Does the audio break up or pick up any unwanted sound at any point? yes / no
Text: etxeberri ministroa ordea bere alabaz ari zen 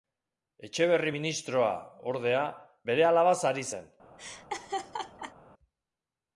yes